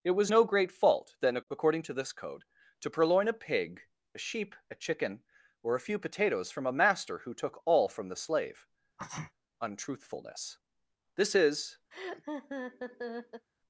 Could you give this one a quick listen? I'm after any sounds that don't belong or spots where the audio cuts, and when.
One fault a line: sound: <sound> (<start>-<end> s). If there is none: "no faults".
sound: sneeze (9.0-9.3 s)
sound: laugh (11.9-13.5 s)